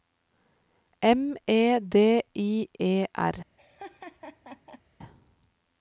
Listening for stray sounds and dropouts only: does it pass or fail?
fail